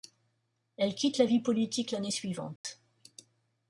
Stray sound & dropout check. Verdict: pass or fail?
fail